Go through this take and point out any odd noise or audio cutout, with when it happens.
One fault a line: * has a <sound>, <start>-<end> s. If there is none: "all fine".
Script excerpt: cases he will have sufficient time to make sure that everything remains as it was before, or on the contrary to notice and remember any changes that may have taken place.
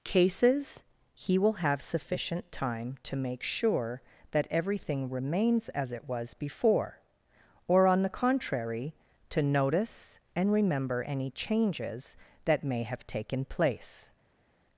all fine